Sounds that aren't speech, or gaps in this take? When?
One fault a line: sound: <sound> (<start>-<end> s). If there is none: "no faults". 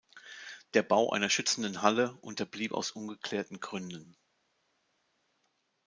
no faults